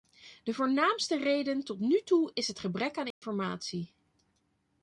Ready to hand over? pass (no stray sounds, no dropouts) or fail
fail